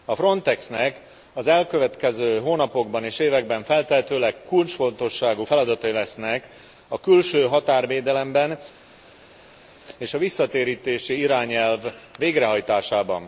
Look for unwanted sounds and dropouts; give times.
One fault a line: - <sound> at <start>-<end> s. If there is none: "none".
none